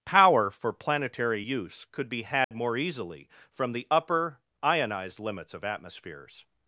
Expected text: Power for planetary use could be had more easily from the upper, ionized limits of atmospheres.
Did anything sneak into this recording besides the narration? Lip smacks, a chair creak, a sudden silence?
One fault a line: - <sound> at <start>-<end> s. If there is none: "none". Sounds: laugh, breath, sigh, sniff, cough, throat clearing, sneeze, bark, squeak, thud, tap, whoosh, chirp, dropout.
- dropout at 2.4-2.5 s